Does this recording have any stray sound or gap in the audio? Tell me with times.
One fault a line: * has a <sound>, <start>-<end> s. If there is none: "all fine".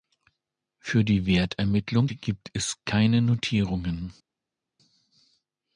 all fine